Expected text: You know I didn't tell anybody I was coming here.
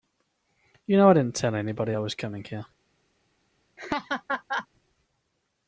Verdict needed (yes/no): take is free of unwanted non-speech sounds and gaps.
no